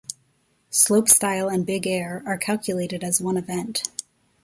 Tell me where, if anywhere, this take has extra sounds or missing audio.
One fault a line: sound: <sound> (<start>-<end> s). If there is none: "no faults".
no faults